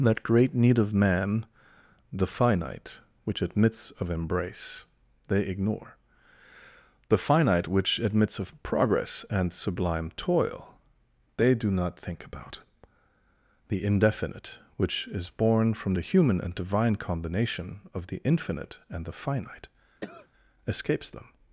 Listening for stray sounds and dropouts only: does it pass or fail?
fail